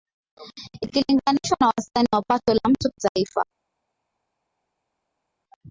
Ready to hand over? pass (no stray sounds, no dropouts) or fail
pass